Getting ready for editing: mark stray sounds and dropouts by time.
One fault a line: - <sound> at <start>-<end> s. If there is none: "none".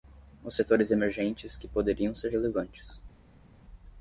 none